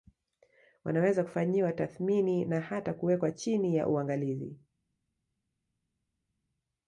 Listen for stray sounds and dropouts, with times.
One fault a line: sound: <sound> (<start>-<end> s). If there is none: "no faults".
no faults